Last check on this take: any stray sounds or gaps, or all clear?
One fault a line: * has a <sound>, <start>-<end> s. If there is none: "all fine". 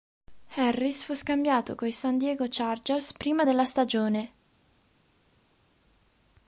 all fine